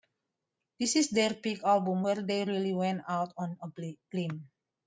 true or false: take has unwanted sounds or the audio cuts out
false